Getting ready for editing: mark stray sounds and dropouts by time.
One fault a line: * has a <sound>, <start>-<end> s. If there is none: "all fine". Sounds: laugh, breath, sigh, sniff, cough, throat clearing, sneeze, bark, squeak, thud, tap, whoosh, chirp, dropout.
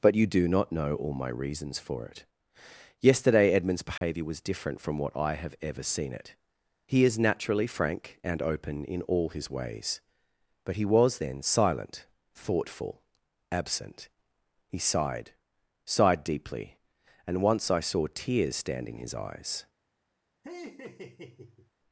* has a dropout, 4.0-4.0 s
* has a laugh, 20.4-21.7 s